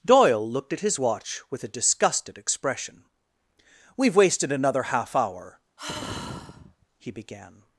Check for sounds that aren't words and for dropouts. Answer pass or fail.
fail